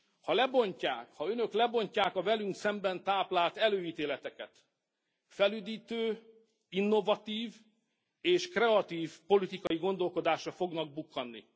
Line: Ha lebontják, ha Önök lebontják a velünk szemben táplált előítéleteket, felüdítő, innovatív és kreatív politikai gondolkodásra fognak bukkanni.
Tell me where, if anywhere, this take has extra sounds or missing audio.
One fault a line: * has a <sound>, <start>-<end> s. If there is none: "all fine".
* has a dropout, 9.7-9.7 s